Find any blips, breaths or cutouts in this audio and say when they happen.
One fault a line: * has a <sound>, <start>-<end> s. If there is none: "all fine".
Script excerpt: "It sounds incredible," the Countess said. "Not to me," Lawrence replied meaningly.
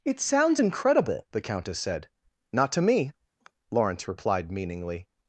* has a sigh, 3.4-3.5 s